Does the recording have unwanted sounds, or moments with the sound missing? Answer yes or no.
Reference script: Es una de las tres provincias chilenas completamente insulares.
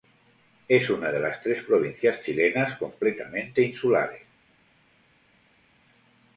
no